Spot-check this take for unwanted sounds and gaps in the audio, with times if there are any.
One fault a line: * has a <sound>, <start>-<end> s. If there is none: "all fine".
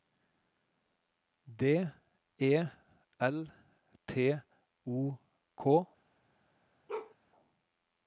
* has a bark, 6.9-7.2 s